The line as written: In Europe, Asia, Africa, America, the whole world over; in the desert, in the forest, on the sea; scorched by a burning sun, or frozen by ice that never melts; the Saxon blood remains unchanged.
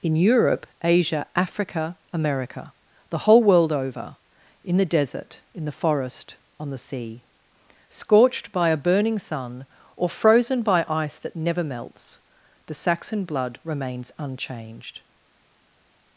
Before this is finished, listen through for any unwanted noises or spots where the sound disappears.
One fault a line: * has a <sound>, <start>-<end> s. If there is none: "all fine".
all fine